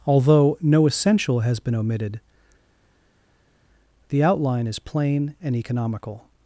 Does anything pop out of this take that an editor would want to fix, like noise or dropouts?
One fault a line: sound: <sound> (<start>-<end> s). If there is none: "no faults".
no faults